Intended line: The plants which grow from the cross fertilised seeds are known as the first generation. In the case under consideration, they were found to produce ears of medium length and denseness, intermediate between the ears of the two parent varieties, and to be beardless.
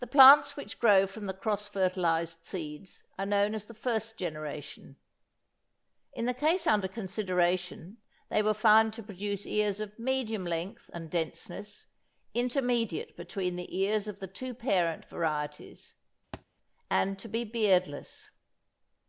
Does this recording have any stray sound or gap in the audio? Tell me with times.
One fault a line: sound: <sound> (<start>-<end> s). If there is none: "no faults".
sound: thud (16.3-16.5 s)